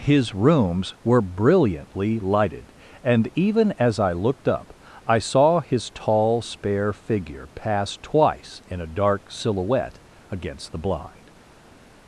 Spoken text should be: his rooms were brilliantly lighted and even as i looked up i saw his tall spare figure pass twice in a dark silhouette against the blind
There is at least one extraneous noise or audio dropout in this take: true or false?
false